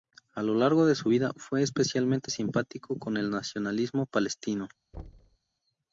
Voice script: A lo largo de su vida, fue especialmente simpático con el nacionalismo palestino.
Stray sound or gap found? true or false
true